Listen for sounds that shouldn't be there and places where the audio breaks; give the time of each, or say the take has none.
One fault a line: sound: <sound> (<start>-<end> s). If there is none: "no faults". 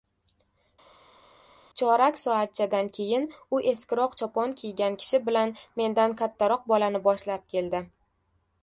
no faults